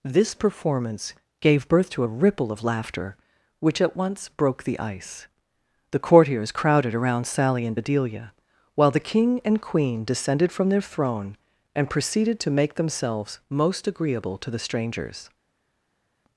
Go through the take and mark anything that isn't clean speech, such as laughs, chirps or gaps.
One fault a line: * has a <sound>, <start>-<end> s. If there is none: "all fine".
all fine